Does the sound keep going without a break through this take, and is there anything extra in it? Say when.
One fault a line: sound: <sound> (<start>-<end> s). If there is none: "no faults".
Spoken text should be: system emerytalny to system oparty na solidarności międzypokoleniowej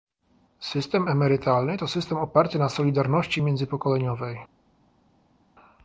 no faults